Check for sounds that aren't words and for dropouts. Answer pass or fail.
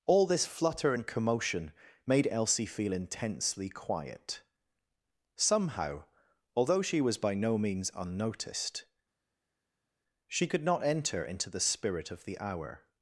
pass